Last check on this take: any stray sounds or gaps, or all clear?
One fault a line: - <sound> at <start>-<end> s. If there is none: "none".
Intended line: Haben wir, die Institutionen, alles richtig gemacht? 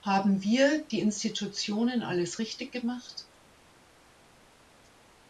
none